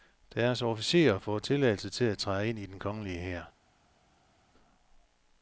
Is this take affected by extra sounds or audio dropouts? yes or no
no